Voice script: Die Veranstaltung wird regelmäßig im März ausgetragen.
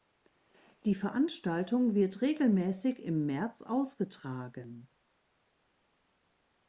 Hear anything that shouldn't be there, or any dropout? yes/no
no